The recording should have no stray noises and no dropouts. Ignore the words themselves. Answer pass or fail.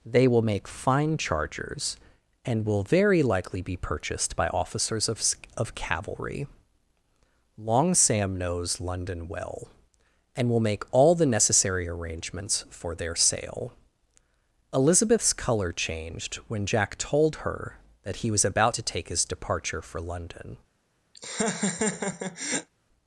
fail